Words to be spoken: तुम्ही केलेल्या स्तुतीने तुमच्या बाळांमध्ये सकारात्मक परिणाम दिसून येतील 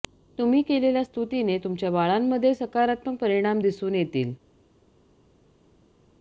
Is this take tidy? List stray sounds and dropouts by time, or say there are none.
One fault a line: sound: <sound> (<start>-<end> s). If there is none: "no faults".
no faults